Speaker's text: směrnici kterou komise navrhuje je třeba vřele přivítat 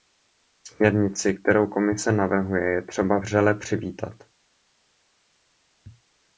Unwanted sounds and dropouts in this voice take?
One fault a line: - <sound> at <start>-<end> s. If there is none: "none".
none